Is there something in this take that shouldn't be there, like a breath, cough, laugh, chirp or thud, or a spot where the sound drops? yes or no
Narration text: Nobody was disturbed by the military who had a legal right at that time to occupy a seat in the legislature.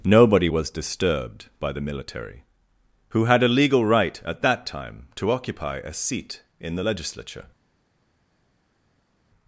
no